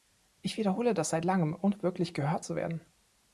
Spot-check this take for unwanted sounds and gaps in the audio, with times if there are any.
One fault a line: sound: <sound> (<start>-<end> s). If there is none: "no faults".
no faults